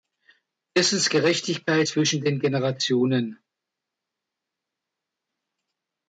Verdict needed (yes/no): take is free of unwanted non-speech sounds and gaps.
yes